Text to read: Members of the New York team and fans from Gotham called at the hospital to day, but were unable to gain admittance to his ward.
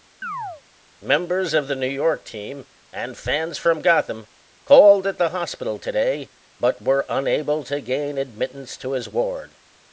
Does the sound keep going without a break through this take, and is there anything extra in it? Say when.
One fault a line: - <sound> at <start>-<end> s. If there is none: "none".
- chirp at 0.2-0.6 s